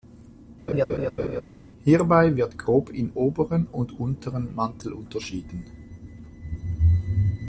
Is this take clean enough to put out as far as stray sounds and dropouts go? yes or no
no